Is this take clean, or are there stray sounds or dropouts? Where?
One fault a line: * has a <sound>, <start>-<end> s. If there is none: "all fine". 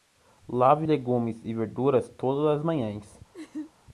* has a laugh, 3.3-3.7 s